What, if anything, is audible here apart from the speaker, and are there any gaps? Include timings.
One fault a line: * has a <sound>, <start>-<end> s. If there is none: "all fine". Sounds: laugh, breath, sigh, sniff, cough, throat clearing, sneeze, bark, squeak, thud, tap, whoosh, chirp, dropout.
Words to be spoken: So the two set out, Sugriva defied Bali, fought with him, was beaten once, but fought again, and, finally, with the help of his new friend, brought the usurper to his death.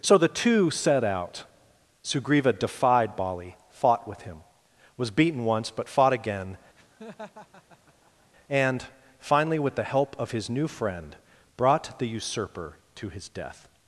* has a laugh, 6.8-8.3 s